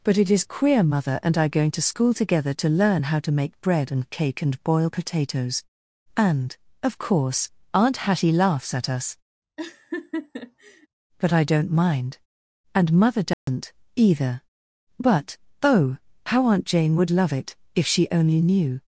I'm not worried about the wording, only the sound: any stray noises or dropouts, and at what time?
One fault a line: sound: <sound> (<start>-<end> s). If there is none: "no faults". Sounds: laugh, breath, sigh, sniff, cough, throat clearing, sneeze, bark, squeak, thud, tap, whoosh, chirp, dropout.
sound: laugh (9.6-10.9 s)
sound: dropout (13.3-13.5 s)